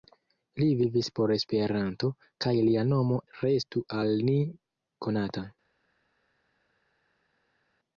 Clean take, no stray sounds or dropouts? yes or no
yes